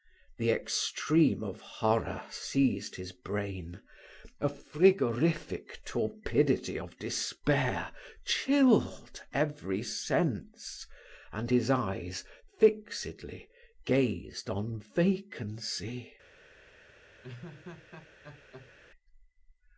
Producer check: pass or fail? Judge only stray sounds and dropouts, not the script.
fail